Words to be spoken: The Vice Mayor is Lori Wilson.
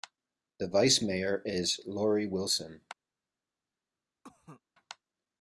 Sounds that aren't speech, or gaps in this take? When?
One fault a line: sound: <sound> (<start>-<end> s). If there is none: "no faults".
sound: cough (4.2-4.6 s)